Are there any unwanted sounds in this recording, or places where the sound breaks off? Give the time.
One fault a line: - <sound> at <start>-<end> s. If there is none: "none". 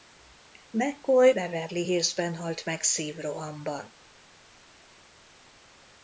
none